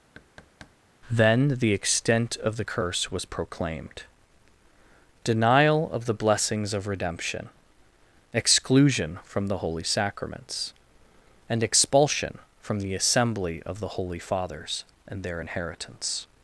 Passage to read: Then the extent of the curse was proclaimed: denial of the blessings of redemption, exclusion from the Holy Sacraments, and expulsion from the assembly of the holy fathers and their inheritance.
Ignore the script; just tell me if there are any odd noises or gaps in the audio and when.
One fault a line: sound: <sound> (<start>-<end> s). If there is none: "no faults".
sound: thud (0.1-0.8 s)